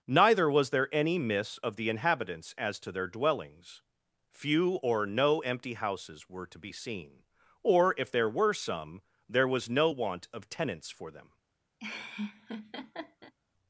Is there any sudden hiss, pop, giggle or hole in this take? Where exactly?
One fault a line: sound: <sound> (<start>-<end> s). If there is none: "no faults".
sound: laugh (11.8-13.3 s)